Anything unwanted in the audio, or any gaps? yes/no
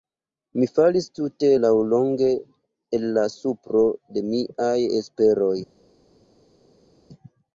no